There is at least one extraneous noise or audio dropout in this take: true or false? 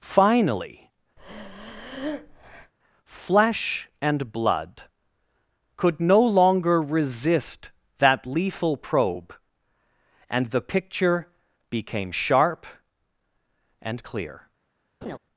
true